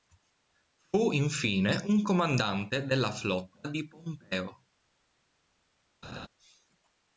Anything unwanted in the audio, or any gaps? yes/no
yes